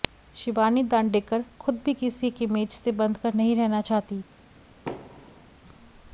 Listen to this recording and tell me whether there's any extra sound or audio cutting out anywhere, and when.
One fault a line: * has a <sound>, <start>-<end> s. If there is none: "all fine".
* has a thud, 4.9-5.5 s